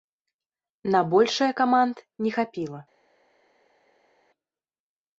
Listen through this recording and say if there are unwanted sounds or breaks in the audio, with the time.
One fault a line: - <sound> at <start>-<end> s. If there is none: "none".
none